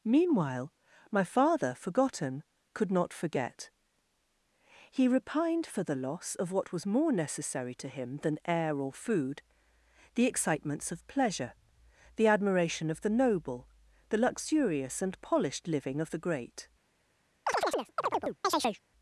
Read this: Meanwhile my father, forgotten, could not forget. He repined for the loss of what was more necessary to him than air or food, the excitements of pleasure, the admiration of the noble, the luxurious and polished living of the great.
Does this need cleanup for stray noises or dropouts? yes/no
yes